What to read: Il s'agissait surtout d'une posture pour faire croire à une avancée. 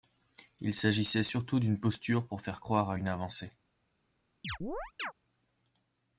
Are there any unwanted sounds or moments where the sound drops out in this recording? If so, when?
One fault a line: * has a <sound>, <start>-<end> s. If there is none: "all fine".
* has a chirp, 4.4-5.1 s